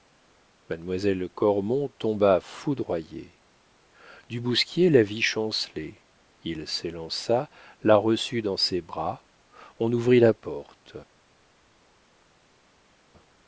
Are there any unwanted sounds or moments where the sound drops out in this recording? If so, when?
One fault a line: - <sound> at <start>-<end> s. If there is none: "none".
none